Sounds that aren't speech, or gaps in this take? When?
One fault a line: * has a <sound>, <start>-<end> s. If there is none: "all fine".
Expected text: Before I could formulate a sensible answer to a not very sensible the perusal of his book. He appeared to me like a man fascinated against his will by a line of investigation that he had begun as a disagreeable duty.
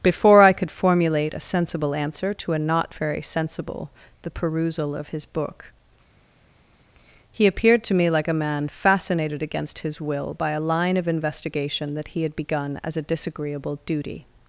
all fine